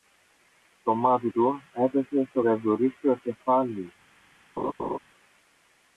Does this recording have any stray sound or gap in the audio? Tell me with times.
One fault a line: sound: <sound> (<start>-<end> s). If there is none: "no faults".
sound: laugh (4.6-5.0 s)